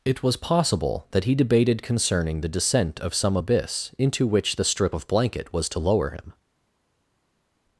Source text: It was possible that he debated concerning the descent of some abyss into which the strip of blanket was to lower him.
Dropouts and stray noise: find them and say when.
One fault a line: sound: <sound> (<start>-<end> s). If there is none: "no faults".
no faults